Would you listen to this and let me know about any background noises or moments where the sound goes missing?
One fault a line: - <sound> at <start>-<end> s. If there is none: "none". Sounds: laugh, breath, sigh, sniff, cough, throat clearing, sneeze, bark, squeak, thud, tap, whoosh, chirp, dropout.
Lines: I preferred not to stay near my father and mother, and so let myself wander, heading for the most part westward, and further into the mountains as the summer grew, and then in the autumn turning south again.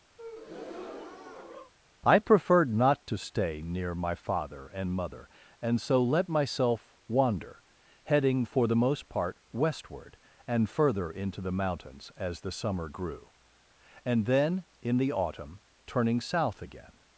- breath at 0.2-1.7 s